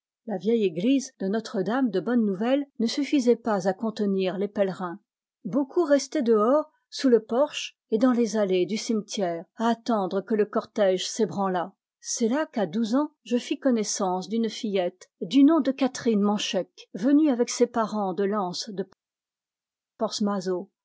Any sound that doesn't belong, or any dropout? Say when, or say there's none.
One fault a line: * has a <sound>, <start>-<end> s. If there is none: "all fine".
all fine